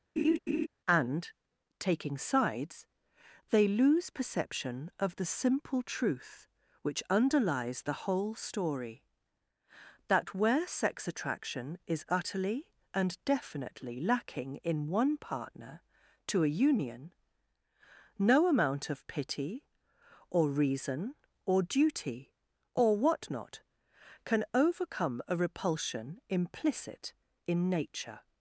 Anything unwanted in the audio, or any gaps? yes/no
yes